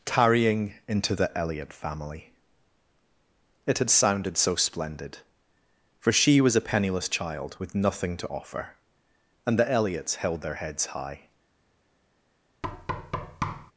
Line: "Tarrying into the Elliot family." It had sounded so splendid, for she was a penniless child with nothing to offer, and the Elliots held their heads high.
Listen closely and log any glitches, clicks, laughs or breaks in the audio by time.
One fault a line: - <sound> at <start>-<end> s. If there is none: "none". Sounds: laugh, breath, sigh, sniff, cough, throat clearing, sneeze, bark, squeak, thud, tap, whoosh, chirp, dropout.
- thud at 12.6-13.7 s